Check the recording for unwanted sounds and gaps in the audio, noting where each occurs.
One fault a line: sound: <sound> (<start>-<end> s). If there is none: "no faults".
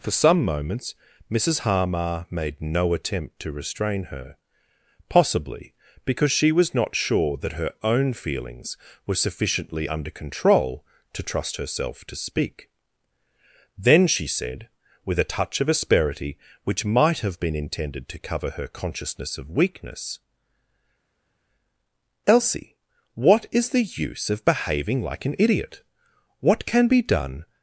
no faults